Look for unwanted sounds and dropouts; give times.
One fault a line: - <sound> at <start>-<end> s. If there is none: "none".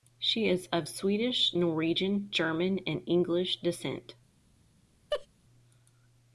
- laugh at 5.1-5.3 s